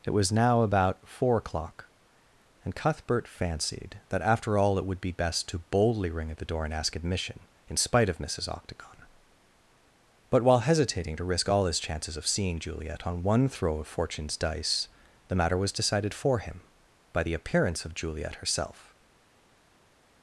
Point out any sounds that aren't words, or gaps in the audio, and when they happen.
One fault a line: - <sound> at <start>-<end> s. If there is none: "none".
none